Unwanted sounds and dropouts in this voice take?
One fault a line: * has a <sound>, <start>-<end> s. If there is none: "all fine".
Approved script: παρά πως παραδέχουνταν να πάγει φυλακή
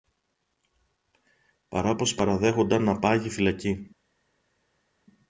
all fine